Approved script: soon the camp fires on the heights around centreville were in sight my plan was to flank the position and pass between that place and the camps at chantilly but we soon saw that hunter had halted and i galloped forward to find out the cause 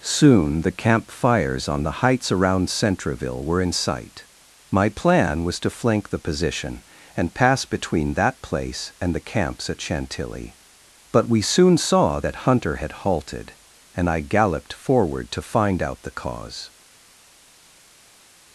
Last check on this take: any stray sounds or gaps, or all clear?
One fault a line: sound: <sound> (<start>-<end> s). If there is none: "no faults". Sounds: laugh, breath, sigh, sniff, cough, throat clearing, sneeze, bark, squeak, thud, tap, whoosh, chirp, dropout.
no faults